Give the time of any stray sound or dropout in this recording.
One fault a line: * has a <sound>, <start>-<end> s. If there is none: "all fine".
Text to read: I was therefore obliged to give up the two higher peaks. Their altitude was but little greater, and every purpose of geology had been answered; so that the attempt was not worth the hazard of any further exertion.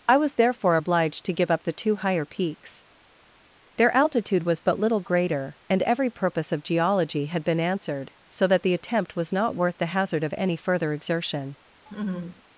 * has a laugh, 11.9-12.4 s